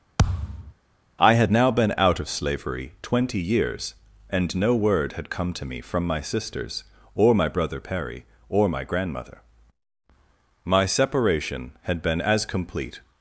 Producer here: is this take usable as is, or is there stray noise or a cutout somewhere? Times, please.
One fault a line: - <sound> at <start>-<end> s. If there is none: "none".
- thud at 0.2-0.7 s